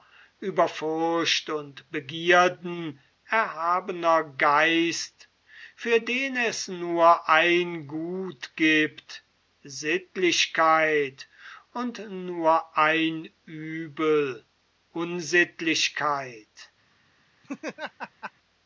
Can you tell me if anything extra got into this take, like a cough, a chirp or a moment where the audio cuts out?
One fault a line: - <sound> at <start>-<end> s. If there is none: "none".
- laugh at 17.4-18.3 s